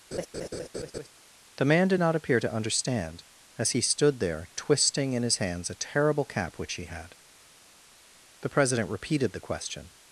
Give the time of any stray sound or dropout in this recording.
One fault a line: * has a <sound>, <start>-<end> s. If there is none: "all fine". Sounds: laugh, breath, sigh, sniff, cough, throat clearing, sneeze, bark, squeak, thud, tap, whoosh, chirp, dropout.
* has a laugh, 0.1-1.1 s